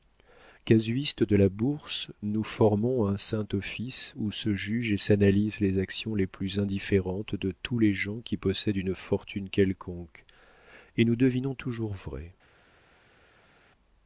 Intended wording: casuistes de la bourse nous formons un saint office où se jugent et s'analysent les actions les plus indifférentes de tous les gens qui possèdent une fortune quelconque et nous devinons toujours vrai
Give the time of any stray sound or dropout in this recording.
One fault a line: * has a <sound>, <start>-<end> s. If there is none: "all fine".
all fine